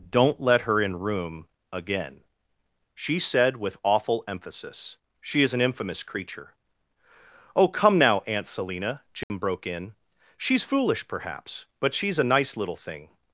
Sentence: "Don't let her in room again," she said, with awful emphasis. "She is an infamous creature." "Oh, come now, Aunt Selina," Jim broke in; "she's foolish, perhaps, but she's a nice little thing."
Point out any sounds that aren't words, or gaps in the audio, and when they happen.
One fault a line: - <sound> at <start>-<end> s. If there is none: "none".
- dropout at 9.2-9.3 s